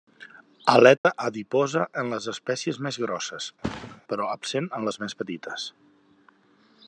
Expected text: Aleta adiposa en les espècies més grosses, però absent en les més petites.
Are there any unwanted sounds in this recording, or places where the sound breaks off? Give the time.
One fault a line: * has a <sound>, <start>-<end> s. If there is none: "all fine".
* has a dropout, 1.0-1.0 s
* has a thud, 3.6-4.0 s